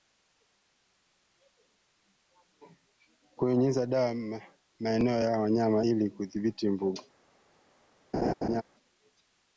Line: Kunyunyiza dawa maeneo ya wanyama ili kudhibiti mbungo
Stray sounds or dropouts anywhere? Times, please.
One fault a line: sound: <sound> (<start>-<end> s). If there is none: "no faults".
sound: laugh (8.1-8.6 s)